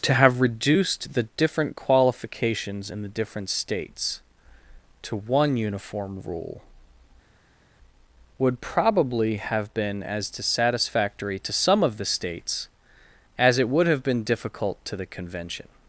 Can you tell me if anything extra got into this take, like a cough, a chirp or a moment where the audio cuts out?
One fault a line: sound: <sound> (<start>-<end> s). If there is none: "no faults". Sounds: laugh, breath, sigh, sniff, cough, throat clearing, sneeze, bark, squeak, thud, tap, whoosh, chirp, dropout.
no faults